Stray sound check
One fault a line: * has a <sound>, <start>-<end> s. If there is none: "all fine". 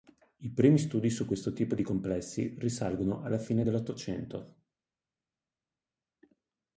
all fine